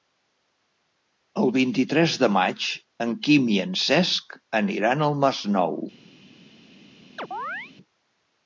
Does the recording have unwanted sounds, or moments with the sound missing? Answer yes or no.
yes